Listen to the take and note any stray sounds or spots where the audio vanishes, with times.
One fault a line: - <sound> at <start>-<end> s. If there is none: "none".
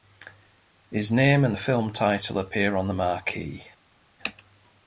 none